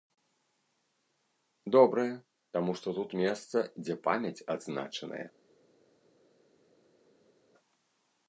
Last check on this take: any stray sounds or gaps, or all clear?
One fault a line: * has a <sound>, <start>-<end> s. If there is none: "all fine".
all fine